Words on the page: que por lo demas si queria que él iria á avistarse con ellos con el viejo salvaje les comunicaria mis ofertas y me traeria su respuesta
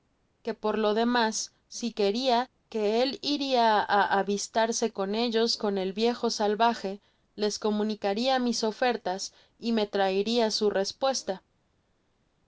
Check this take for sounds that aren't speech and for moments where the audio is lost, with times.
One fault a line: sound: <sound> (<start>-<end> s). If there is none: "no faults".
no faults